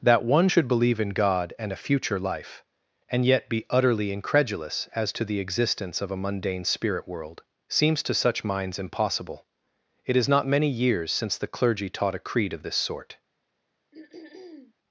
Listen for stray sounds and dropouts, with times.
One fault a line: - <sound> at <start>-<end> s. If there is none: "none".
- throat clearing at 13.9-14.7 s